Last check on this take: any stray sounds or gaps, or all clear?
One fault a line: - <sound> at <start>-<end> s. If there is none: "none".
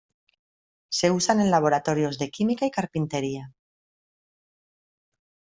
none